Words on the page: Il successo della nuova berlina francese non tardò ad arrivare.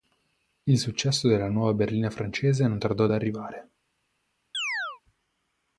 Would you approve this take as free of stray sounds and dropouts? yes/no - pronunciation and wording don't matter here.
no